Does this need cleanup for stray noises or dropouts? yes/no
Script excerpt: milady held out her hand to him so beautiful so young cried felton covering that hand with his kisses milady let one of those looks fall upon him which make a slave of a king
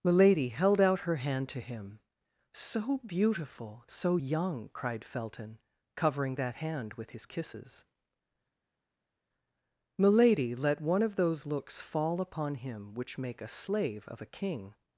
no